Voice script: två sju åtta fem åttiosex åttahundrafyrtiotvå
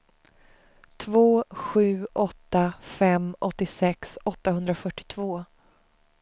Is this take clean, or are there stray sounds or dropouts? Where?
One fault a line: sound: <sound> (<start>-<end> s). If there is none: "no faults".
no faults